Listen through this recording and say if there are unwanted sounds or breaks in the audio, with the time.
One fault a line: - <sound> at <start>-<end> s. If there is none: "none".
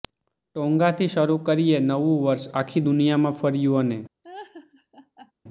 - laugh at 4.2-5.3 s